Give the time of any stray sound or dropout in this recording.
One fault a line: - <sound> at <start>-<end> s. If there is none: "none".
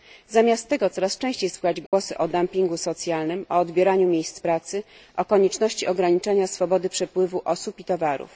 - dropout at 1.9-1.9 s